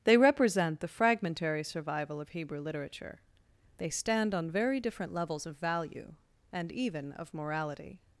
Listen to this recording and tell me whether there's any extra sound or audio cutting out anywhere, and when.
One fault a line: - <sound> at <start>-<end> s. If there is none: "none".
none